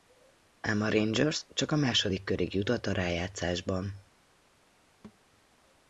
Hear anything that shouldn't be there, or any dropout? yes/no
yes